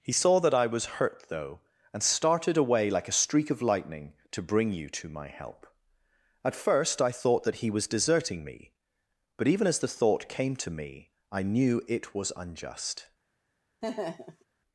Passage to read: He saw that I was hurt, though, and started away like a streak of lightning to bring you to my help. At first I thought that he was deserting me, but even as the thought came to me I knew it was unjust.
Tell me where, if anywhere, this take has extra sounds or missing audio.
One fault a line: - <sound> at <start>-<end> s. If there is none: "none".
- laugh at 13.8-14.4 s